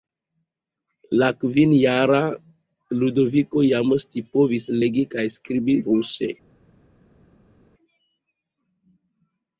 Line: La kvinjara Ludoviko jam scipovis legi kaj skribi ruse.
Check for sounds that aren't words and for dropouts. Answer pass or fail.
pass